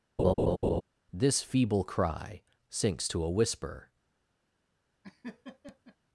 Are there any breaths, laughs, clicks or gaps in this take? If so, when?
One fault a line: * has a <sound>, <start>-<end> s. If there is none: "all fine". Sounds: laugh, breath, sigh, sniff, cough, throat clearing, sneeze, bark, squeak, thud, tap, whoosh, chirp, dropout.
* has a laugh, 0.2-0.8 s
* has a laugh, 5.0-6.0 s